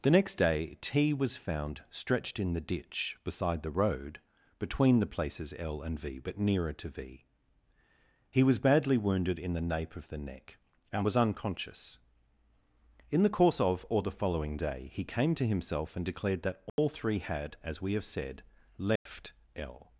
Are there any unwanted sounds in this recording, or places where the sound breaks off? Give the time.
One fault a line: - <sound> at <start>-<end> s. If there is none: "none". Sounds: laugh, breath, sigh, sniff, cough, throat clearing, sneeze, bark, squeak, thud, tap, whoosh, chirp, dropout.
- dropout at 16.7-16.8 s
- dropout at 19.0-19.1 s